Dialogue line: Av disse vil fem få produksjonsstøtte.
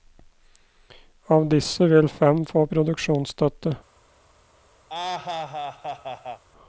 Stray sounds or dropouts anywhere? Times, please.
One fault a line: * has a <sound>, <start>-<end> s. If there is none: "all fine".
* has a laugh, 4.9-6.4 s